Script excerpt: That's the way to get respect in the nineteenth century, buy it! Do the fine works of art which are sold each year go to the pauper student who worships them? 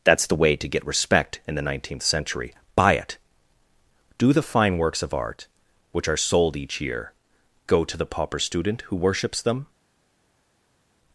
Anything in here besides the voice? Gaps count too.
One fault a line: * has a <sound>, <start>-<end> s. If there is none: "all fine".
all fine